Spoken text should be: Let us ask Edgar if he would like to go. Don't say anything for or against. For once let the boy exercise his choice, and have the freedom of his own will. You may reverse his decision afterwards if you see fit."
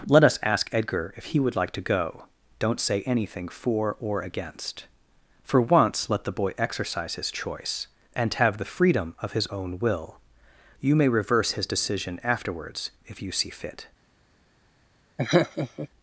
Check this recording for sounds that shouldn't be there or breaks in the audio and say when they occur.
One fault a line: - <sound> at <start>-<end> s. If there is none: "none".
- laugh at 15.2-15.9 s